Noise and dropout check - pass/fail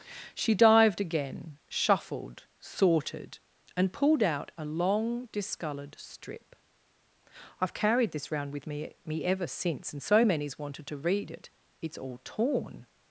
pass